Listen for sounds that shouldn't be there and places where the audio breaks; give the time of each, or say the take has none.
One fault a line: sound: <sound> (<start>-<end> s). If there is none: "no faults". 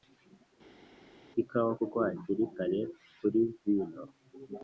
no faults